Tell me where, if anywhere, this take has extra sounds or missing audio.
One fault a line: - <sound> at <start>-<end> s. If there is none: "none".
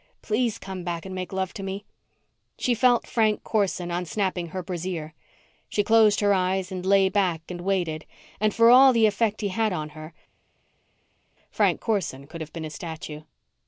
none